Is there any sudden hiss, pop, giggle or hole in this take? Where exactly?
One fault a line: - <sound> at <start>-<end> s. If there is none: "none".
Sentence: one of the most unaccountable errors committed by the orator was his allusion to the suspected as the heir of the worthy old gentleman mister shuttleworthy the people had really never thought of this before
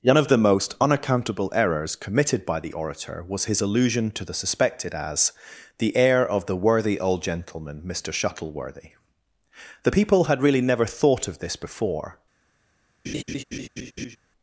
- laugh at 13.0-14.2 s